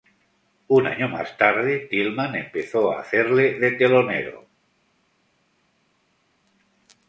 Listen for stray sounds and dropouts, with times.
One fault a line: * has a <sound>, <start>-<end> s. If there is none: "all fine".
all fine